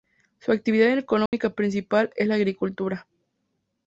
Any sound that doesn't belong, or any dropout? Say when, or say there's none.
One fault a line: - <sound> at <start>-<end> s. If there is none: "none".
- dropout at 1.3-1.3 s